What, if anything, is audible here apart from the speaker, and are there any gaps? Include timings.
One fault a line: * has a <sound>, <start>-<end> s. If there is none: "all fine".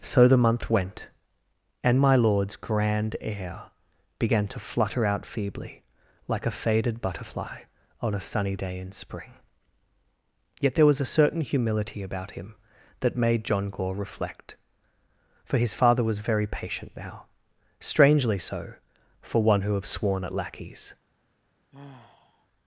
* has a sigh, 21.7-22.5 s